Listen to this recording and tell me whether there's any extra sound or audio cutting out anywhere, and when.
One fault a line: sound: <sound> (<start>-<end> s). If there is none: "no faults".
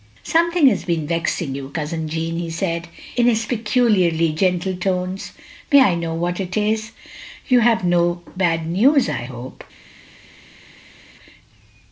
no faults